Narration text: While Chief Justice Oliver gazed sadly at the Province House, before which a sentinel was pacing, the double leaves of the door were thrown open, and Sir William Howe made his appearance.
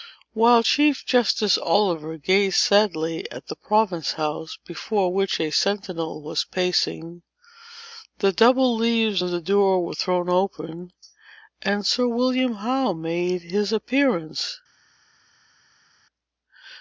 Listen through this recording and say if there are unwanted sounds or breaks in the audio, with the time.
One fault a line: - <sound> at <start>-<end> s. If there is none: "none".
none